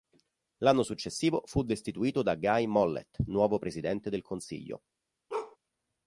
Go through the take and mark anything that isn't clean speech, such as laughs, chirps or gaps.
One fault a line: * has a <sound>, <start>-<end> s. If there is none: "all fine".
* has a bark, 5.3-5.6 s